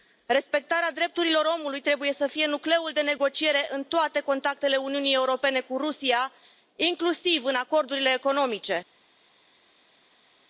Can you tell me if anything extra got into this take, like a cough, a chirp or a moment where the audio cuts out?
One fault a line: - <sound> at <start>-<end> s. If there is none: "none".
none